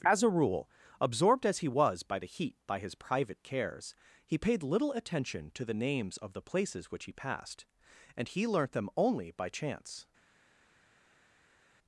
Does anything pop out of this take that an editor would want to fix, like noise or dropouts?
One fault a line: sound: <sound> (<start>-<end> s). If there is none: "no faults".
no faults